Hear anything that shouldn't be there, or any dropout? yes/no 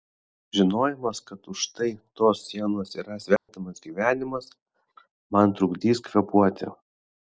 yes